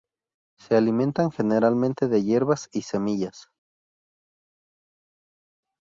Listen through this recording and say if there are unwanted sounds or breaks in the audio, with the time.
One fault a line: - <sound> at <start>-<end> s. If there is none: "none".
none